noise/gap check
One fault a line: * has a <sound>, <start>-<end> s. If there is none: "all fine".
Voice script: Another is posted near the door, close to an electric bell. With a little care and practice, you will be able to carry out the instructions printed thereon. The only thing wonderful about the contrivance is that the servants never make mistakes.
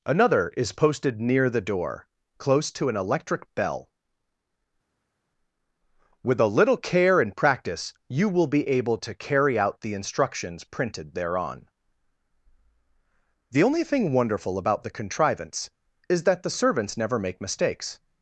all fine